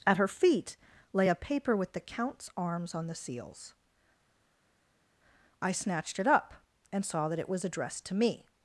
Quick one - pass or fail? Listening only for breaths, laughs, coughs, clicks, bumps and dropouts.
pass